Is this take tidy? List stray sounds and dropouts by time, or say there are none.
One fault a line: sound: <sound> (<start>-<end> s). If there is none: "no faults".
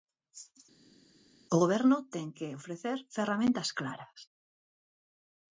no faults